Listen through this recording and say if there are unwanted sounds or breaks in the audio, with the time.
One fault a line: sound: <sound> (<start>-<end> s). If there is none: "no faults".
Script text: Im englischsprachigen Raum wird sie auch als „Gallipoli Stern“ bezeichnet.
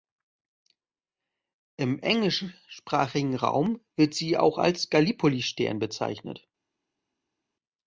no faults